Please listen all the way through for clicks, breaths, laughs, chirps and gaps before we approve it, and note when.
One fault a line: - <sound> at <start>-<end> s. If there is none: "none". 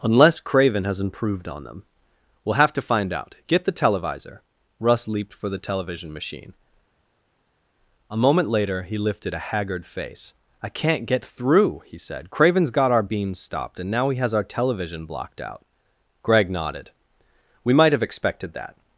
none